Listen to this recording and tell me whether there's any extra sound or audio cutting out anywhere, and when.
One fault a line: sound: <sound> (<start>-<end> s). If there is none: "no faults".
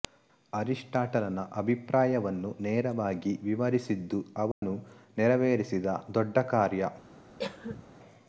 sound: dropout (4.5-4.6 s)
sound: cough (7.4-7.8 s)